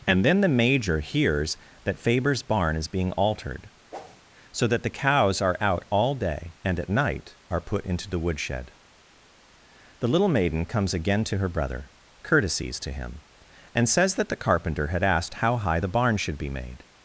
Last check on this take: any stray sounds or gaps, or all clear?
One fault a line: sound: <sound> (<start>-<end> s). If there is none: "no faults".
sound: whoosh (3.9-4.2 s)